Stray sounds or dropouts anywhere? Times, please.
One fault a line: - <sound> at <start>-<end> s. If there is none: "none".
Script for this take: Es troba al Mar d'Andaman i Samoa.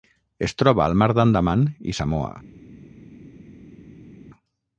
none